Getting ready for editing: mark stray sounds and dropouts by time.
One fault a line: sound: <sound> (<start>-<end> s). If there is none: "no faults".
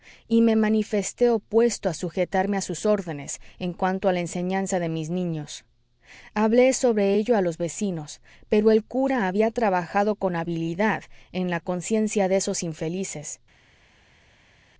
no faults